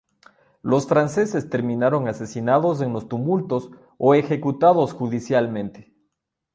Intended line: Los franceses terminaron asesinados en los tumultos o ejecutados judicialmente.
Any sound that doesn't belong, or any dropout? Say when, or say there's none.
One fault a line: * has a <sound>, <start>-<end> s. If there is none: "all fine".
all fine